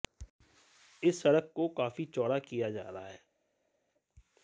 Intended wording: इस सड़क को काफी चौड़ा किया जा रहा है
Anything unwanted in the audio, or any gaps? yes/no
no